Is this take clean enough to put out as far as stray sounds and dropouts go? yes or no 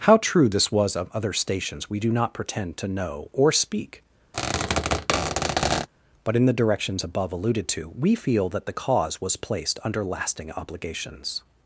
no